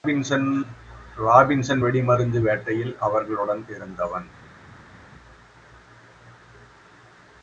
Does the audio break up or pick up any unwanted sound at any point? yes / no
no